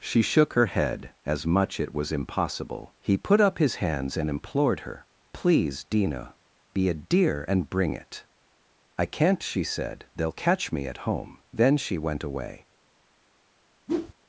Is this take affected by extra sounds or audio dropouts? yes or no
yes